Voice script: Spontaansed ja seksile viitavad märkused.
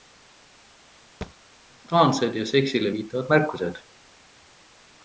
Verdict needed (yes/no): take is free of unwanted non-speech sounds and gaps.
no